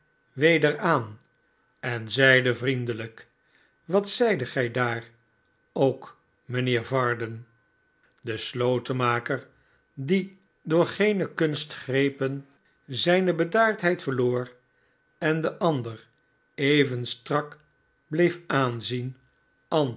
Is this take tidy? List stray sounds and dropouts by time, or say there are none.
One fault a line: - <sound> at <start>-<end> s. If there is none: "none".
none